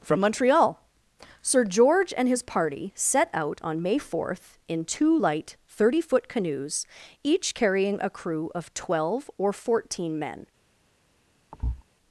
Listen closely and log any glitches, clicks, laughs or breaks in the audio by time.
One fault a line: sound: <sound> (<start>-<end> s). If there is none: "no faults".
sound: thud (11.5-11.8 s)